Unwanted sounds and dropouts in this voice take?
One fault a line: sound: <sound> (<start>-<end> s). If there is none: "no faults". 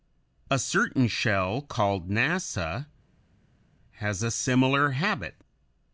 no faults